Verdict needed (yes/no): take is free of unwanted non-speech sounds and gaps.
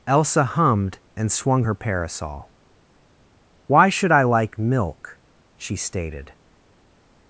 yes